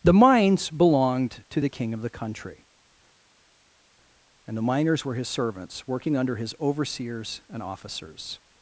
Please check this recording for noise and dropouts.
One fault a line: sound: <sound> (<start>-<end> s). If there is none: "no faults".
no faults